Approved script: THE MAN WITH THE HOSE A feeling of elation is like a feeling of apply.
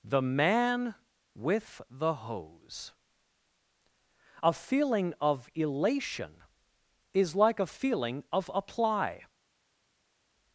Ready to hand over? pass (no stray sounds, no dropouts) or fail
pass